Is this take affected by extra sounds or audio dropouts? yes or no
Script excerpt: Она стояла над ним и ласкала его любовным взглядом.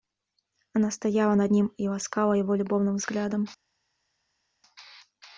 no